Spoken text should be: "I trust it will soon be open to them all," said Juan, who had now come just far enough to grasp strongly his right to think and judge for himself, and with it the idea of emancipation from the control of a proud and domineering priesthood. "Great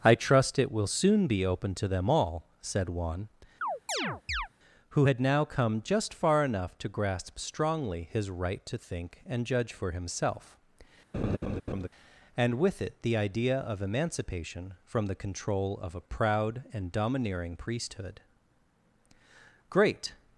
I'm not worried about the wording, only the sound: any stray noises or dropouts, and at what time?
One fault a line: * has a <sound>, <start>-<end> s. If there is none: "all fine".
* has a chirp, 3.6-4.5 s
* has a laugh, 11.1-11.9 s